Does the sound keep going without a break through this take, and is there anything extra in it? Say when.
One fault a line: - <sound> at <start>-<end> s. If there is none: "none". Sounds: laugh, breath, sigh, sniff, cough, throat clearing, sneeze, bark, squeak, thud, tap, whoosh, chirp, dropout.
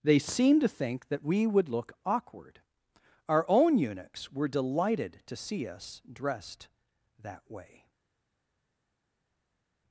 none